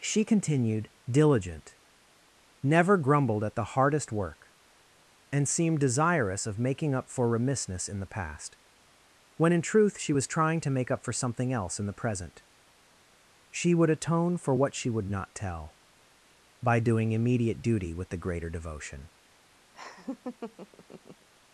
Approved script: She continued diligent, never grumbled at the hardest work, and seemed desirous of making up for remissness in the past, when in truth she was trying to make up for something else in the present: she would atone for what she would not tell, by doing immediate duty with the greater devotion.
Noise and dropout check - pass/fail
fail